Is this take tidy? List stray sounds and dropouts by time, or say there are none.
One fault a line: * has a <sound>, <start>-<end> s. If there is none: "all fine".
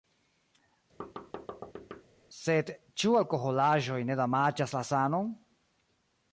* has a thud, 1.0-2.0 s